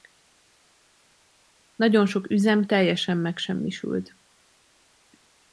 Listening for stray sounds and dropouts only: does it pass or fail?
pass